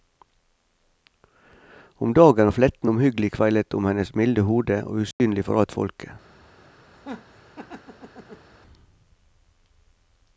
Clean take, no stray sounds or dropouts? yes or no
no